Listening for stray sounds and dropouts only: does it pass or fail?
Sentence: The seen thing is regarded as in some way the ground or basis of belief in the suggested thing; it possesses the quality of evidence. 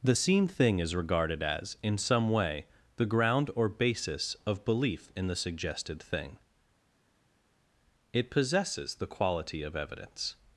pass